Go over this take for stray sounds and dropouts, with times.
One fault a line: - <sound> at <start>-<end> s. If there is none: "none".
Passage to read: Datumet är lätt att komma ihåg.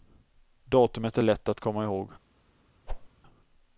- whoosh at 2.9-3.1 s